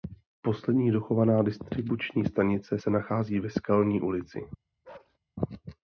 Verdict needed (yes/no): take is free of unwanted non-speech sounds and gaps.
no